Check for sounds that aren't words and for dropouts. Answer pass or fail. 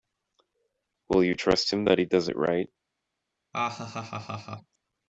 fail